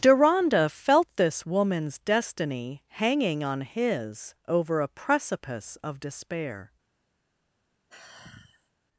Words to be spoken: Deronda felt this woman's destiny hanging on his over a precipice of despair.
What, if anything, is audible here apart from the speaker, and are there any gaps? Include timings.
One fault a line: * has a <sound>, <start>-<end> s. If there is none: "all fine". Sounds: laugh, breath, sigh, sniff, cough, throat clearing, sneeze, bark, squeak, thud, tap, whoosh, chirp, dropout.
* has a sigh, 7.9-8.7 s